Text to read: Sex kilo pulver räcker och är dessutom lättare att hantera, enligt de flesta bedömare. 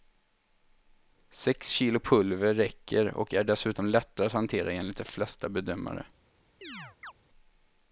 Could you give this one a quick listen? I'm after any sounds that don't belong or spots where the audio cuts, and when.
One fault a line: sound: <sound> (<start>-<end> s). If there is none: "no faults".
sound: chirp (6.6-7.1 s)